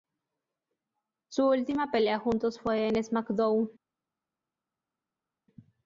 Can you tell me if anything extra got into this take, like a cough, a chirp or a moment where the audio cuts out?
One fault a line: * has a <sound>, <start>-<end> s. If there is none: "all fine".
all fine